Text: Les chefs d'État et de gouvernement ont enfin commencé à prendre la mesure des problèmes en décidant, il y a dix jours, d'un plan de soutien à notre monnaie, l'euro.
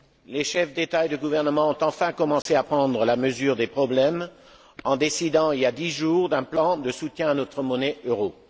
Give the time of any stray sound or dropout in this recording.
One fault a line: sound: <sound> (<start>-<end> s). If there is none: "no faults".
sound: dropout (2.4-2.5 s)